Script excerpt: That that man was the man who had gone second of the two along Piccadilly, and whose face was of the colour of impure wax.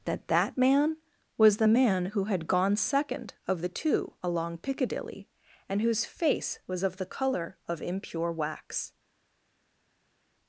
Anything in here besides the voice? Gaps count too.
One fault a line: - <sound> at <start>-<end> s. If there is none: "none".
none